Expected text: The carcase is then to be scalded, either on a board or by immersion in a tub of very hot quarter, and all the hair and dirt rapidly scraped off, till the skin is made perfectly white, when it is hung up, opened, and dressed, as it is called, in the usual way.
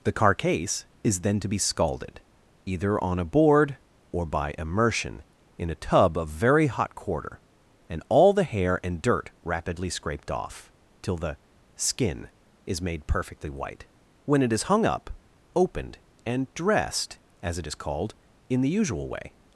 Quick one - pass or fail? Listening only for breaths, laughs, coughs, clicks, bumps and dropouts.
pass